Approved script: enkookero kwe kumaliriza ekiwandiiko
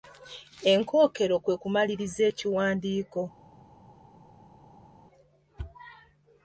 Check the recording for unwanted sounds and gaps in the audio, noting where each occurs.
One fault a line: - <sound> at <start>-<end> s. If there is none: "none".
none